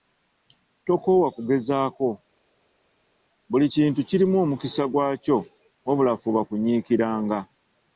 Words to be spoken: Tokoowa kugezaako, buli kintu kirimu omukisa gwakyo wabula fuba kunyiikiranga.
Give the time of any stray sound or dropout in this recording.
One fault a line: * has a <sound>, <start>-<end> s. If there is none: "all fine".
all fine